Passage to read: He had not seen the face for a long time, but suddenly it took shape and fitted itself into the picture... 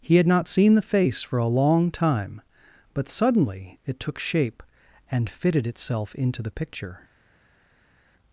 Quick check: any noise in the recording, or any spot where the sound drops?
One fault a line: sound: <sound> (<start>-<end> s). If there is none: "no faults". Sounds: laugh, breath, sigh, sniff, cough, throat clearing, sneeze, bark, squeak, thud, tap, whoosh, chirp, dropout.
no faults